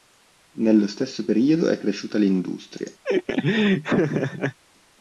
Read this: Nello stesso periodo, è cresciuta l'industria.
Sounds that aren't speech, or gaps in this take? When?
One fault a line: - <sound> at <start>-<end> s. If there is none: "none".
- laugh at 3.0-4.6 s